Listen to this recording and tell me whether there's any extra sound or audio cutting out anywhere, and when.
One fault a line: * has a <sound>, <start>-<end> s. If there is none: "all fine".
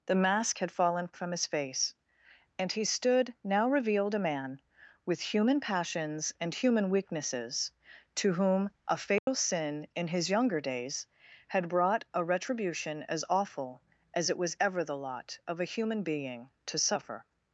* has a dropout, 9.2-9.3 s